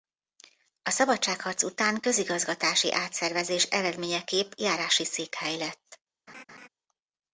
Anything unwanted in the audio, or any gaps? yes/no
yes